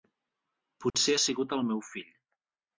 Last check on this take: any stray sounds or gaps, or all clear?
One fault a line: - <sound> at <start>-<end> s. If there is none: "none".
- dropout at 0.9-0.9 s